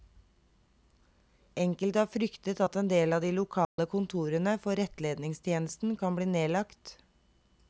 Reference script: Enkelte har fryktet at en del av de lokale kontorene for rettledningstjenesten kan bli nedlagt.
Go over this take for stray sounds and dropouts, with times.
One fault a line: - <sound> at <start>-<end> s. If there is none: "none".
- dropout at 3.6-3.8 s